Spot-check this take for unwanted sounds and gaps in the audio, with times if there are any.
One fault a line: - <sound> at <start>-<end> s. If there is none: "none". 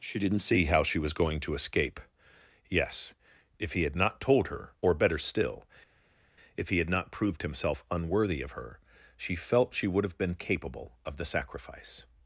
none